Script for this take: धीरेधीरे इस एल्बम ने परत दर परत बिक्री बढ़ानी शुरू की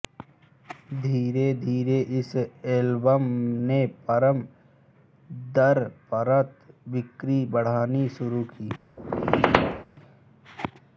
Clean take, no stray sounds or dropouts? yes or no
no